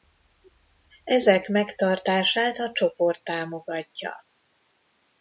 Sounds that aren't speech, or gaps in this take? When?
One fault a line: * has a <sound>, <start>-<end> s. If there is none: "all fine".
all fine